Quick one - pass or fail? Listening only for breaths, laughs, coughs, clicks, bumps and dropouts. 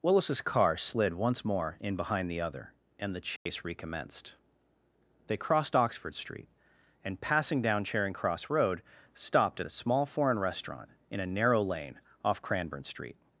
fail